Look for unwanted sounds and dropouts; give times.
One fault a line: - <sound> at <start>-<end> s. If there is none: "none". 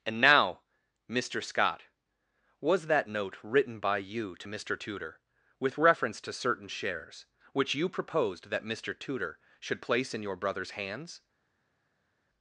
none